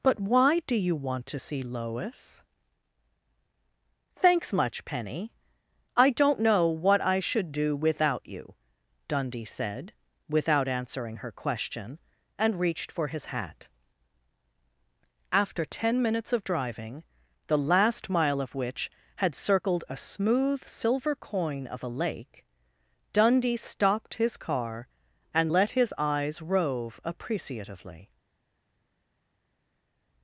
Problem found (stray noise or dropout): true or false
false